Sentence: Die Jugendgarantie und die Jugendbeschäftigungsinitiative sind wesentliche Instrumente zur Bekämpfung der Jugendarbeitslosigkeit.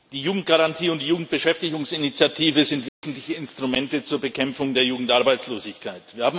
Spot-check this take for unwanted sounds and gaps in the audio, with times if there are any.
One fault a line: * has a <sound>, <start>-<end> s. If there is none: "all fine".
* has a dropout, 2.9-3.0 s